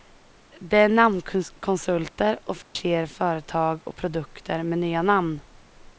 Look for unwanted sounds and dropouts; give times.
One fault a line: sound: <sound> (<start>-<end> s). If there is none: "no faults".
sound: dropout (2.6-2.8 s)